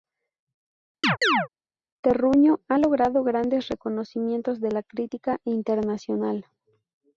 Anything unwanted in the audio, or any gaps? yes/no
yes